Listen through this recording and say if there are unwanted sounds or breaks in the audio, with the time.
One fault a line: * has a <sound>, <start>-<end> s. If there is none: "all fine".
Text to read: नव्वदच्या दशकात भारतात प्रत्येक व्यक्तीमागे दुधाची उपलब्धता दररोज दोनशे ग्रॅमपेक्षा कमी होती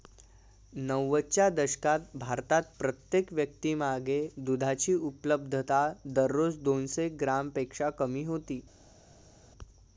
all fine